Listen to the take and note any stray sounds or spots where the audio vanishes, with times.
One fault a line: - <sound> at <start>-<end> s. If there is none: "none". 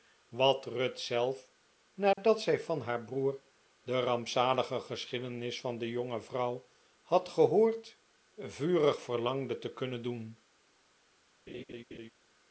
- dropout at 2.1-2.2 s
- laugh at 11.5-12.1 s